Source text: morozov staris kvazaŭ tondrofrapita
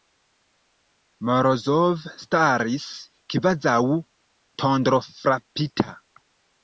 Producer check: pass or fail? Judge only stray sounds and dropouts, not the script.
pass